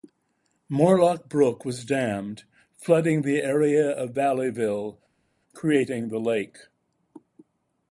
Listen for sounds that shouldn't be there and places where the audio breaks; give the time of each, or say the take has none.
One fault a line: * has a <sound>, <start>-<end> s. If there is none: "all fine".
all fine